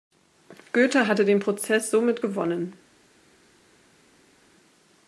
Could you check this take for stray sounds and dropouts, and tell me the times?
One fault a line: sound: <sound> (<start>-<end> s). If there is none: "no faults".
no faults